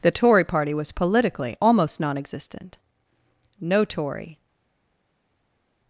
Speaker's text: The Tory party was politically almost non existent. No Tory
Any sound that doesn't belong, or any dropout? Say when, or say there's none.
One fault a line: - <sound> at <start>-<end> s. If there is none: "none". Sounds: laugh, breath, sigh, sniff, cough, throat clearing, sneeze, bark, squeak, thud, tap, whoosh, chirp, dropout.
none